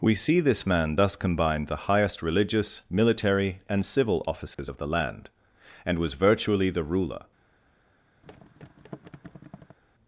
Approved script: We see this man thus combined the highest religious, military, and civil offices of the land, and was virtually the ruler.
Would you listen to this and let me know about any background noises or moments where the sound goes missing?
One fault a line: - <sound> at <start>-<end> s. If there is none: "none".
- dropout at 4.5-4.6 s
- thud at 8.2-9.8 s